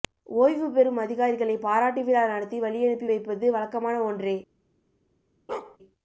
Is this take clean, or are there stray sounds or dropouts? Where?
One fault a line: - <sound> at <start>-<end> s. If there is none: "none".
- bark at 5.5-5.8 s